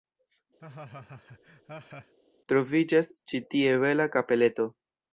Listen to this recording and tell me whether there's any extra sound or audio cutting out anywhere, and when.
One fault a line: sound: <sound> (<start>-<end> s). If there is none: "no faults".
sound: laugh (0.6-2.1 s)